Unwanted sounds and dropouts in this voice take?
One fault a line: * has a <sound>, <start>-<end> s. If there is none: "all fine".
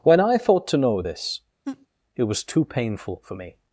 * has a laugh, 1.6-1.9 s